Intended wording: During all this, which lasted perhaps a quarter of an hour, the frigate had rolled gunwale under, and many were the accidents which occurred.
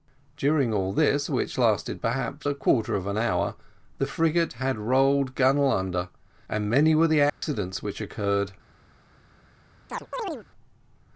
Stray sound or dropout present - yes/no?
yes